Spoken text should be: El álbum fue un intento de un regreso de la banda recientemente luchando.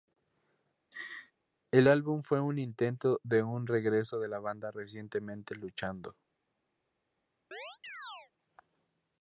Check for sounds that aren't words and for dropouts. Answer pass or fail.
fail